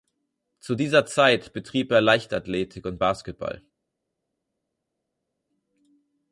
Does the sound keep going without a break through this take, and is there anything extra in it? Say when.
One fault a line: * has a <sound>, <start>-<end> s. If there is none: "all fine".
all fine